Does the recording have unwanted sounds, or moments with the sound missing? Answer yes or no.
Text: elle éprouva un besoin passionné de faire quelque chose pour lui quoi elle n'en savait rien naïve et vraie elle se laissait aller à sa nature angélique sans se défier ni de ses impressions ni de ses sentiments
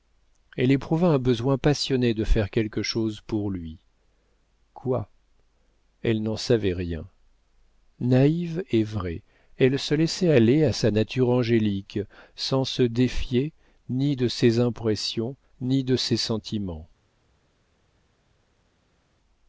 no